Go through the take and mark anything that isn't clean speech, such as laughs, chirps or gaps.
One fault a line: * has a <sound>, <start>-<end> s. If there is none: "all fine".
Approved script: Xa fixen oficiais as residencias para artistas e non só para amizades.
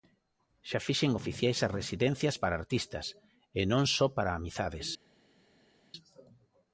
all fine